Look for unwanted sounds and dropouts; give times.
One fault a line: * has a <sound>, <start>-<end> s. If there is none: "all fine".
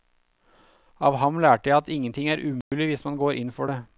* has a dropout, 2.6-2.7 s